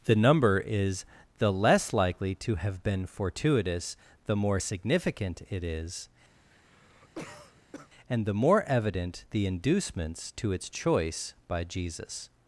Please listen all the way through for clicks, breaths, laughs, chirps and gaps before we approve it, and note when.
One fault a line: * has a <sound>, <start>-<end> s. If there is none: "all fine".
* has a cough, 6.3-7.9 s